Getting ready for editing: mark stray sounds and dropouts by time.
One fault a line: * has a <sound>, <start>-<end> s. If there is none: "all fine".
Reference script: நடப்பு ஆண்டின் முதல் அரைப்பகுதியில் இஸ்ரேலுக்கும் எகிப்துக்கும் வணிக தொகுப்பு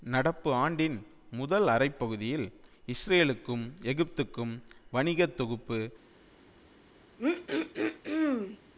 * has a throat clearing, 7.2-8.6 s